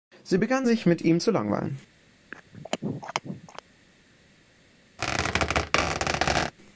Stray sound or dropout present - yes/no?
yes